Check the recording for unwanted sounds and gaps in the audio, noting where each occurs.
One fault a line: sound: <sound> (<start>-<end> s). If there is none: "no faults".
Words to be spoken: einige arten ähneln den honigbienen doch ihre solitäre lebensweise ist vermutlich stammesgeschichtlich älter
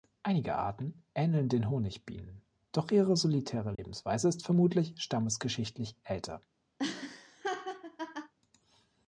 sound: dropout (3.7-3.8 s)
sound: laugh (6.8-8.3 s)